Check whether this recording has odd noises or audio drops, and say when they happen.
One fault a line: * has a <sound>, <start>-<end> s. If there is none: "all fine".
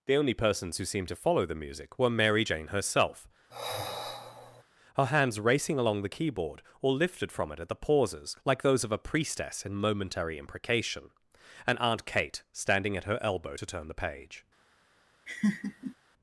* has a sigh, 3.5-4.6 s
* has a laugh, 15.3-16.0 s